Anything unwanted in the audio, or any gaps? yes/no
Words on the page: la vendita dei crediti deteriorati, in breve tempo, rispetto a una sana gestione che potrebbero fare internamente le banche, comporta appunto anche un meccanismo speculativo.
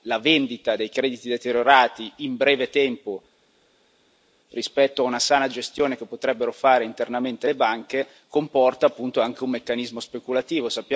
no